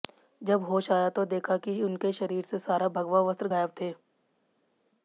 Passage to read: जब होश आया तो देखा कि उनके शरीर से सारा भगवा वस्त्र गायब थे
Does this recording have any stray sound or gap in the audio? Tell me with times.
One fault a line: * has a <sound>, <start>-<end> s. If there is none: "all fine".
all fine